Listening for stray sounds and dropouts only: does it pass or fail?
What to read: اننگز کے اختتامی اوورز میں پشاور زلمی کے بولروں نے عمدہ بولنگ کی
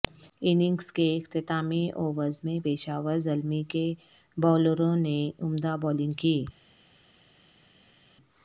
pass